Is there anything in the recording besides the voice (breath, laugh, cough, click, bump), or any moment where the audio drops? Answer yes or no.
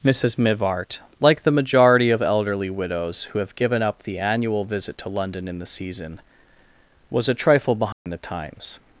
yes